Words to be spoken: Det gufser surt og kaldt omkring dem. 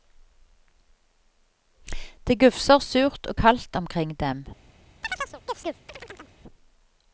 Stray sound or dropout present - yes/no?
yes